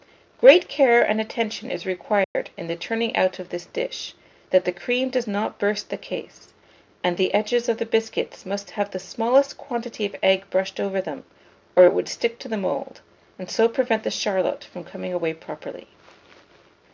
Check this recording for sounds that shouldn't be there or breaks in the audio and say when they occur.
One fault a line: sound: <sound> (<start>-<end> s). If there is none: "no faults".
sound: dropout (2.2-2.4 s)